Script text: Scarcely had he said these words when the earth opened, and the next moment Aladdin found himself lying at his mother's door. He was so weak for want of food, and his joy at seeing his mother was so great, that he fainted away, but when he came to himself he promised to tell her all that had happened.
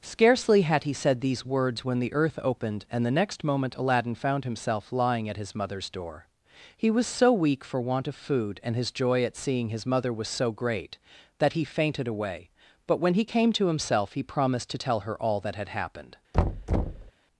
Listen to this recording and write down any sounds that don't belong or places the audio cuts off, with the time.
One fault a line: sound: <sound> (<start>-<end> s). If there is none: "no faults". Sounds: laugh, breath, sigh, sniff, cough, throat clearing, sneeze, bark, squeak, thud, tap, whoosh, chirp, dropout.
sound: thud (16.3-17.1 s)